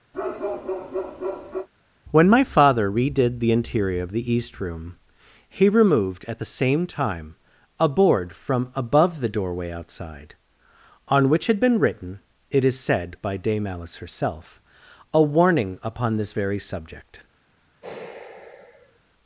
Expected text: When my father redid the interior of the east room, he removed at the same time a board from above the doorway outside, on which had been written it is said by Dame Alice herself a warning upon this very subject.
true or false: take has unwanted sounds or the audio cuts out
true